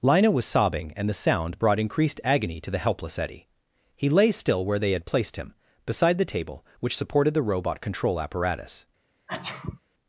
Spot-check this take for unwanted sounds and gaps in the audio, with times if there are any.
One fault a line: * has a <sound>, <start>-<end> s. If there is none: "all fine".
* has a sneeze, 9.3-9.8 s